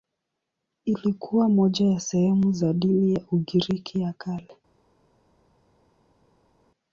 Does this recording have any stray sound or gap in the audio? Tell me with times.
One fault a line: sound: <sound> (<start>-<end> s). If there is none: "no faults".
no faults